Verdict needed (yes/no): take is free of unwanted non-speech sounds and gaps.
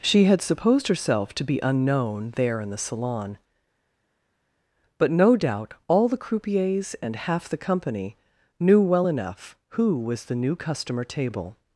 yes